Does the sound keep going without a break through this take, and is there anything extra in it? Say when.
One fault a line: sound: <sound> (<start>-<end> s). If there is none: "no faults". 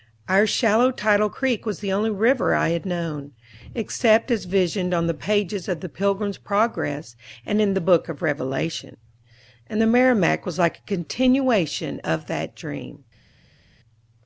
no faults